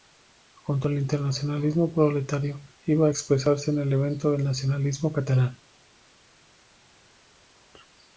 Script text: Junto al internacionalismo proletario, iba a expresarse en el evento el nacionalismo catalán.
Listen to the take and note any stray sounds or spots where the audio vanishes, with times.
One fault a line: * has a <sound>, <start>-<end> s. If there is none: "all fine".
all fine